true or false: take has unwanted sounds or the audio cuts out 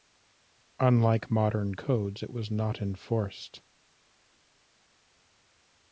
false